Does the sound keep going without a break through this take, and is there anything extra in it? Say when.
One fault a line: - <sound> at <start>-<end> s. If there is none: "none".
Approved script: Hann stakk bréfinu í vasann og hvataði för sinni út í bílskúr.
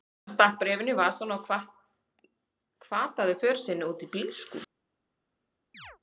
- chirp at 5.7-6.0 s